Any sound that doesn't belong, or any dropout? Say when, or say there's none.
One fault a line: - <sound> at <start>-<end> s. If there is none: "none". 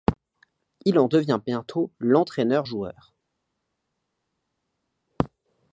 none